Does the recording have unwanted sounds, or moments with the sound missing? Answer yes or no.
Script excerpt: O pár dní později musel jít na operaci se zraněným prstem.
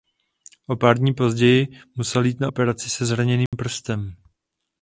yes